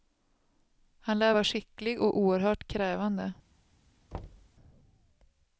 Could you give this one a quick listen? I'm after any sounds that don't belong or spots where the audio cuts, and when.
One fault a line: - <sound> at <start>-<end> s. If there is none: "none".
- thud at 4.1-4.5 s